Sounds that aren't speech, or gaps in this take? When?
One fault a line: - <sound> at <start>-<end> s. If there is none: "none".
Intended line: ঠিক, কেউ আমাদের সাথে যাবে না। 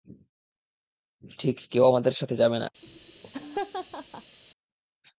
- laugh at 2.8-4.4 s